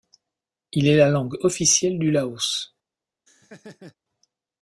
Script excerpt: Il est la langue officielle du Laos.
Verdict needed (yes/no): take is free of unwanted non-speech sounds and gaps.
no